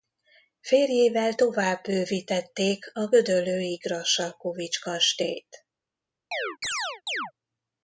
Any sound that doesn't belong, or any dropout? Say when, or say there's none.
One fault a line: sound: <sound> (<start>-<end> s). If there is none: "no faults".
sound: chirp (6.3-7.3 s)